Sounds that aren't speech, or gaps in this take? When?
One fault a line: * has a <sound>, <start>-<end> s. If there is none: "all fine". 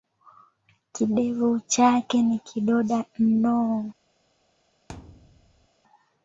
* has a thud, 4.9-5.7 s